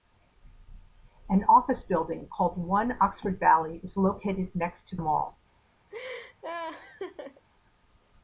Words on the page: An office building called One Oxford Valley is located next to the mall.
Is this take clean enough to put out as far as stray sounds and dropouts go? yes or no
no